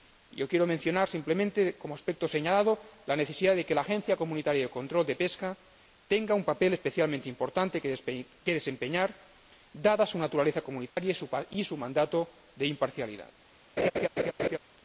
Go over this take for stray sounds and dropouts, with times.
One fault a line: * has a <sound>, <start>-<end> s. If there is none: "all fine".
* has a dropout, 10.9-11.0 s
* has a laugh, 13.8-14.6 s